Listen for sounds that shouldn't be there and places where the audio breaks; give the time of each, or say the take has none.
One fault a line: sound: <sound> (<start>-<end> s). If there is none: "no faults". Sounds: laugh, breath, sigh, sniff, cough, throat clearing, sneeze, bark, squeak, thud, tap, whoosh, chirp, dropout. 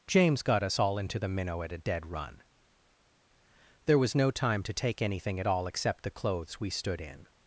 no faults